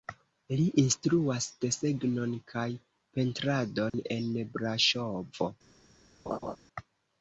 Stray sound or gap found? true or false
true